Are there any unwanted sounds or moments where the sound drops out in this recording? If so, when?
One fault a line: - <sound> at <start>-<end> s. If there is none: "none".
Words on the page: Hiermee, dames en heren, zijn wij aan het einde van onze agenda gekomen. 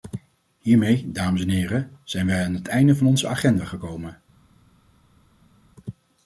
none